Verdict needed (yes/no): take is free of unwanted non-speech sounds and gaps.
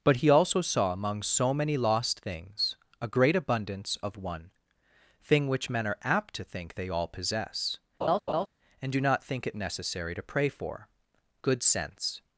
no